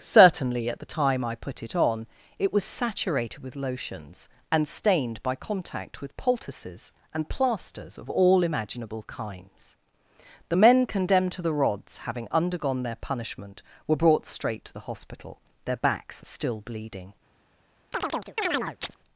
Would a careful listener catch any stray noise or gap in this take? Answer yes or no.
yes